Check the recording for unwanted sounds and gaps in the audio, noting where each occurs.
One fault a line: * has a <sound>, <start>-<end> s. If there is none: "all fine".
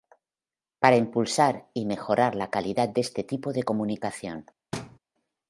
* has a thud, 4.7-5.0 s